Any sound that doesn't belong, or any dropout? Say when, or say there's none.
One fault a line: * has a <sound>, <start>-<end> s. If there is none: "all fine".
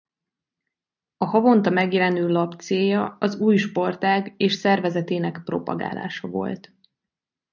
all fine